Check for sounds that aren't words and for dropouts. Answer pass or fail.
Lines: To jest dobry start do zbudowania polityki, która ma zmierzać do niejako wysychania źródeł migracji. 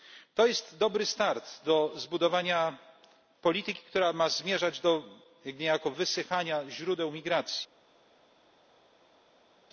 pass